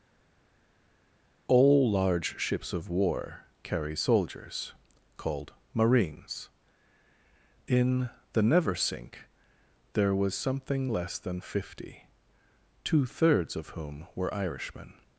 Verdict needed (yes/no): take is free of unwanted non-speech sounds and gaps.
yes